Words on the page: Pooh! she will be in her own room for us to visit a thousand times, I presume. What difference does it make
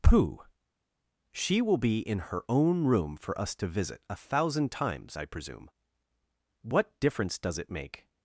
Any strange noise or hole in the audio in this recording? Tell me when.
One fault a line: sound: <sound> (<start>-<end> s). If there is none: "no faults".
no faults